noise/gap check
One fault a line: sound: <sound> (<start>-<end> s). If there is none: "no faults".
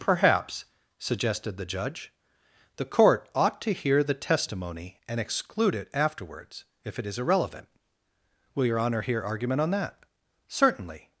no faults